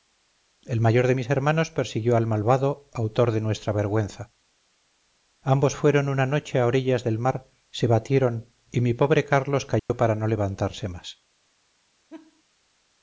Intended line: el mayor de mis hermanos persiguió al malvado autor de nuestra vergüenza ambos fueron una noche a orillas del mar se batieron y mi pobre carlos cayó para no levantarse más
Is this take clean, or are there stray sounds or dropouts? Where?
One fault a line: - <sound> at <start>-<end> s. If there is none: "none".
- dropout at 9.8-9.9 s
- laugh at 12.1-12.4 s